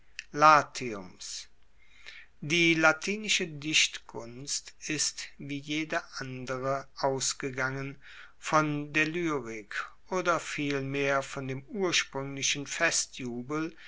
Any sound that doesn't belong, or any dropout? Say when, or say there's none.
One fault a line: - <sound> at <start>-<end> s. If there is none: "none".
none